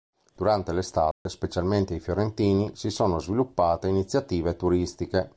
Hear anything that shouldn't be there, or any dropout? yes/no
yes